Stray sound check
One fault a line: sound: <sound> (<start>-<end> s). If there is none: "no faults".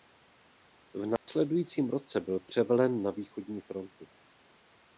sound: dropout (1.2-1.3 s)